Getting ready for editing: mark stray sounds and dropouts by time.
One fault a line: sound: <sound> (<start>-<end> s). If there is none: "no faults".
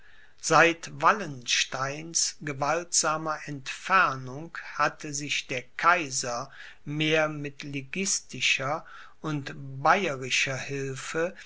no faults